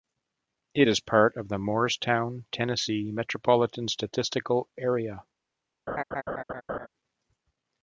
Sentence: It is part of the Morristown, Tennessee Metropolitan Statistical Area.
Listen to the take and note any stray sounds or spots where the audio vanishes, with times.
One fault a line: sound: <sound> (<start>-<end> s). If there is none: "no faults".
sound: laugh (5.9-6.9 s)